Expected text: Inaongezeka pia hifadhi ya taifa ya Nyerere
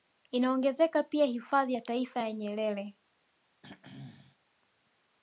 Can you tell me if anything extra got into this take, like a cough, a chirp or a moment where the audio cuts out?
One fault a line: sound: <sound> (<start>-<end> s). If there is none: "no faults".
sound: throat clearing (3.6-4.4 s)